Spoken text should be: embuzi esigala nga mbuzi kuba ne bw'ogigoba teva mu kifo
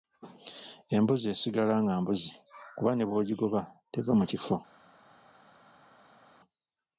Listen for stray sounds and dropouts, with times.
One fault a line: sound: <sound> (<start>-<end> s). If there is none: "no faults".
no faults